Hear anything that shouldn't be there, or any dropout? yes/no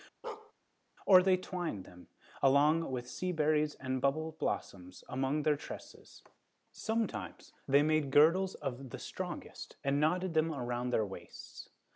yes